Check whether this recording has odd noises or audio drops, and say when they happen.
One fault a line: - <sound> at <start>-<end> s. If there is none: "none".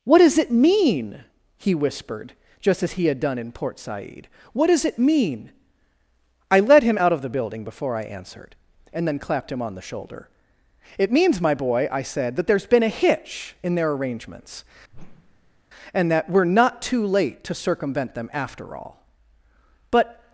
- whoosh at 14.9-15.6 s